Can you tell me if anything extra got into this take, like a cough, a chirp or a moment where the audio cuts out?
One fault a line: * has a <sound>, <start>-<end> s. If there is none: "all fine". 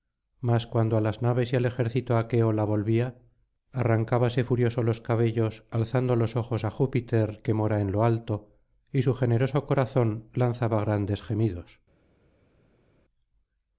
all fine